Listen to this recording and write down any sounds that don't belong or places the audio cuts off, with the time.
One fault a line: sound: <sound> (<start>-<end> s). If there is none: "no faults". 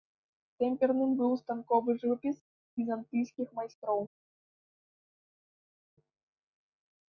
no faults